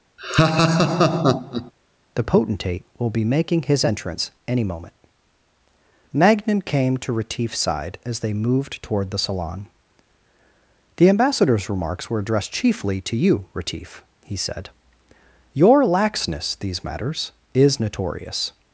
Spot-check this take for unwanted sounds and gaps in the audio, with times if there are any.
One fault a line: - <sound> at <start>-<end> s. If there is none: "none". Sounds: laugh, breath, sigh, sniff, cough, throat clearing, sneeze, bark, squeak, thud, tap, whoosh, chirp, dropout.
- laugh at 0.2-1.7 s